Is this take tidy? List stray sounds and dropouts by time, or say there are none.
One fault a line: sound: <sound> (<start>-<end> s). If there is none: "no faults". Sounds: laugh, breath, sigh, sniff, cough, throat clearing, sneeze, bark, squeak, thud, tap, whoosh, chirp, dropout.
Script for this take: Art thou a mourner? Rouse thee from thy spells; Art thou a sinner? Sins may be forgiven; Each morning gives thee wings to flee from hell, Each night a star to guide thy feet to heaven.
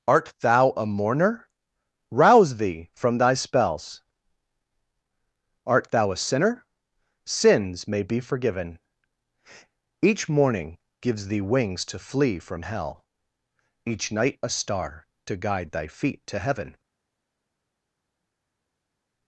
no faults